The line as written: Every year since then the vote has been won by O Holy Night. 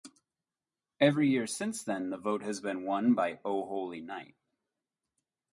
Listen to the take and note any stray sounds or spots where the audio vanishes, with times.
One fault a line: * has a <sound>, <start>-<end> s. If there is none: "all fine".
all fine